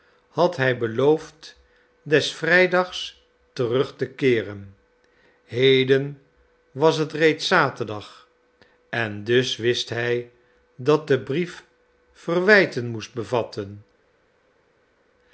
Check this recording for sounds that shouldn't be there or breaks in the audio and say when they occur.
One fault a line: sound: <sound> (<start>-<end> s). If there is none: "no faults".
no faults